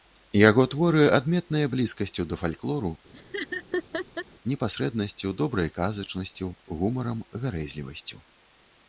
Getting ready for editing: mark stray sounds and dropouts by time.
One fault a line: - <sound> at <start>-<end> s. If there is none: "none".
- laugh at 3.1-4.3 s